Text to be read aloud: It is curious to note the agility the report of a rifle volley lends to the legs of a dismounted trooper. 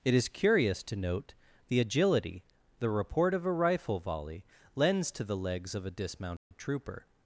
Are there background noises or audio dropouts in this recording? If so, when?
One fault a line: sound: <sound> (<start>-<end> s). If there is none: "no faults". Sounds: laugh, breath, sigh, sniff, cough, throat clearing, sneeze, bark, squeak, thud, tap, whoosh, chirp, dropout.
sound: dropout (6.4-6.5 s)